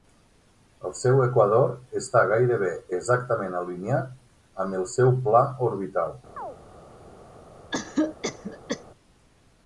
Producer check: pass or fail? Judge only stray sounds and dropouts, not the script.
fail